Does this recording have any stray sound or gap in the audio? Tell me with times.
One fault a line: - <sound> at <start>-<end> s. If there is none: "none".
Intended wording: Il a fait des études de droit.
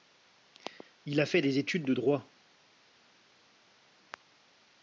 none